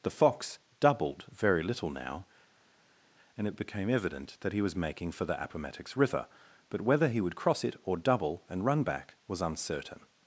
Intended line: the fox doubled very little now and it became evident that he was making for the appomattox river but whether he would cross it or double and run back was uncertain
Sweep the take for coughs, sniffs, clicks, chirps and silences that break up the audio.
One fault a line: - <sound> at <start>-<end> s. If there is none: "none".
none